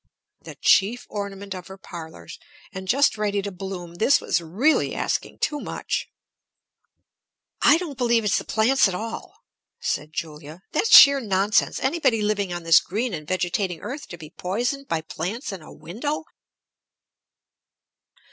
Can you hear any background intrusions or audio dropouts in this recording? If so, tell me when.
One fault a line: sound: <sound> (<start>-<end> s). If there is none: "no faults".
no faults